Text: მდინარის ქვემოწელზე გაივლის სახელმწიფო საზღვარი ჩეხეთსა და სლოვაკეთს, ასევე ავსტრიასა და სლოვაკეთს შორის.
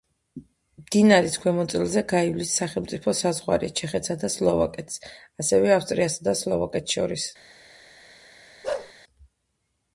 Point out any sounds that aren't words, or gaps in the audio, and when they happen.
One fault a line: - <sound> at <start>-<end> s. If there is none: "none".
- bark at 8.6-8.9 s